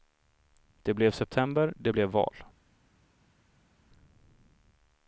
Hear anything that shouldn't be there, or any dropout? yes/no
no